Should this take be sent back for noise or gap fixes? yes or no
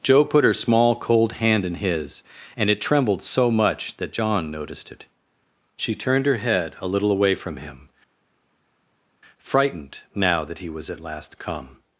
no